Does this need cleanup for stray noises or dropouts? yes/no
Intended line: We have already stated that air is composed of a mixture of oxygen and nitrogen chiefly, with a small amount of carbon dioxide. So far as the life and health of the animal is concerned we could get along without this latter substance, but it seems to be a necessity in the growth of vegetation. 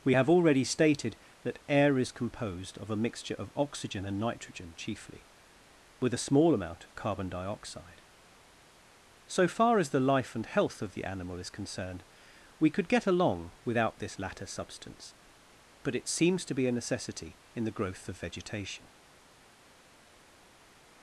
no